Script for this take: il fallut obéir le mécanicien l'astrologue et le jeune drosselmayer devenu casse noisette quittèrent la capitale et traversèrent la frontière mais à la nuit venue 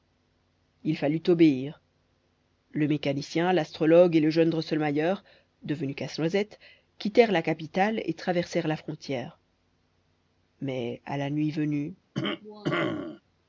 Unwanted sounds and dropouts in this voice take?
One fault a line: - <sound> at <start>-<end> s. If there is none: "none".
- cough at 12.1-13.2 s